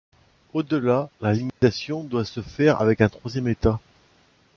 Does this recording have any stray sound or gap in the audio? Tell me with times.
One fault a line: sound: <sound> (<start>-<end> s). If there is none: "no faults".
sound: dropout (1.5-1.6 s)